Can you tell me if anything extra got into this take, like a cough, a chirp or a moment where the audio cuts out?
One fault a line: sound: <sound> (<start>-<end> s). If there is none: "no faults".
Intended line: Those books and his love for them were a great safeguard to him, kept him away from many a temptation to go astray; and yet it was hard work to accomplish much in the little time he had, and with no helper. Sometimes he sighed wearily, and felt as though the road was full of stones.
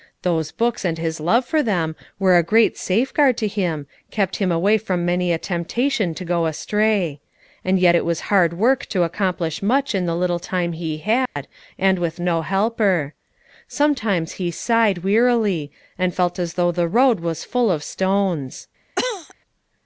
sound: dropout (11.3-11.4 s)
sound: cough (19.0-19.3 s)